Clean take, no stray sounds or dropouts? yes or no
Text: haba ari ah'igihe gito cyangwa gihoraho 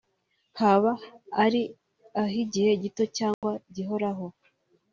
no